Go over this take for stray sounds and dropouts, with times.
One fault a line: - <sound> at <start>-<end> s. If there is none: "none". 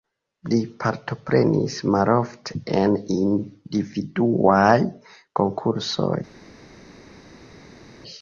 none